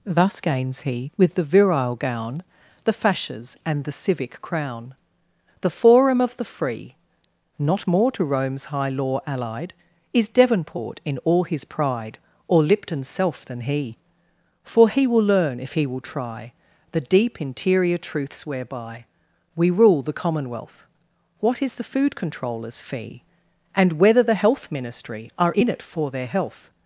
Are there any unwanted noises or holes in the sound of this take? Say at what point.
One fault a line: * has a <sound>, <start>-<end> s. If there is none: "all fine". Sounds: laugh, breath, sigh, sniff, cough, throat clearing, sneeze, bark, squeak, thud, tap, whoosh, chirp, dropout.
all fine